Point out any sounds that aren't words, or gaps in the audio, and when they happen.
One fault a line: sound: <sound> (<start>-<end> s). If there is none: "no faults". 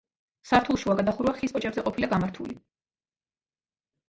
no faults